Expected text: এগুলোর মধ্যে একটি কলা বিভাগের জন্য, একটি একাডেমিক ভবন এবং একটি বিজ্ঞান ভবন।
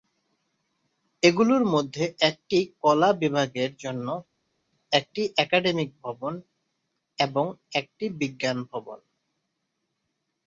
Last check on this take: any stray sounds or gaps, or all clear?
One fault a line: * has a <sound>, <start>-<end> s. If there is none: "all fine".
all fine